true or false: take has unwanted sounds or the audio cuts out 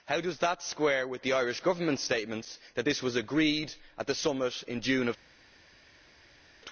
false